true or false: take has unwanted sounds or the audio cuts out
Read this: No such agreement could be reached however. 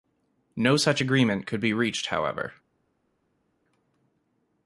false